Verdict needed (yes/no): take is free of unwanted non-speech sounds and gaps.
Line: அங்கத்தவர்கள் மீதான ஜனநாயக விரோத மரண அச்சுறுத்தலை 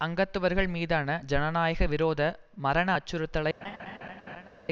no